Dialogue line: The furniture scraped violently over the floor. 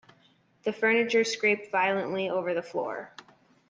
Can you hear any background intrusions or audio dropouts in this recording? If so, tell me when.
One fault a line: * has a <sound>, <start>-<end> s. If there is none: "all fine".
all fine